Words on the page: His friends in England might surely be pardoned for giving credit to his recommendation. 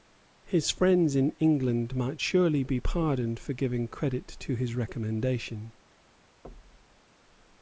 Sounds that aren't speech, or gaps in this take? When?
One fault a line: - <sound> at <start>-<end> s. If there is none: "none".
- thud at 6.4-7.0 s